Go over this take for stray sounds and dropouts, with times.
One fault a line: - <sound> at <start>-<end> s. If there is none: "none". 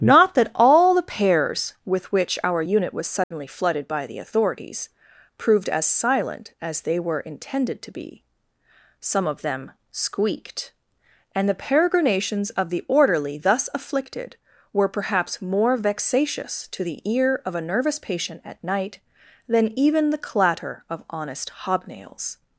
- dropout at 3.2-3.3 s